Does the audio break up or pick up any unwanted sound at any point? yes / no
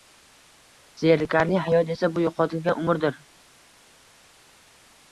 no